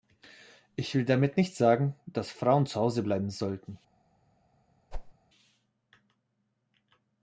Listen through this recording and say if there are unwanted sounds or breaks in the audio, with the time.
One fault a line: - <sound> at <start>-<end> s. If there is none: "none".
- whoosh at 4.9-5.1 s